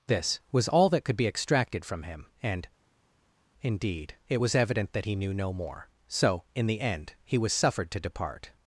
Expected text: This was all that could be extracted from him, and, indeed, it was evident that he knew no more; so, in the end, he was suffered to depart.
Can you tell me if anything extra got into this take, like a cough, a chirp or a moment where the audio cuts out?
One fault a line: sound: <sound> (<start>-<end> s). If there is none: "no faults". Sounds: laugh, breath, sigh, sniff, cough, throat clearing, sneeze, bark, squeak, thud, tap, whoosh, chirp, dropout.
no faults